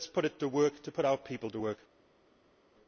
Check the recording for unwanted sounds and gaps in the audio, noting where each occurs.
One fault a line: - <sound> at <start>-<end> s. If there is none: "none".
none